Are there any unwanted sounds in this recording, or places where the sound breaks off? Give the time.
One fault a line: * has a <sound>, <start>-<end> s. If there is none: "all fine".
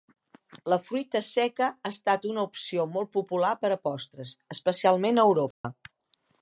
* has a dropout, 5.5-5.6 s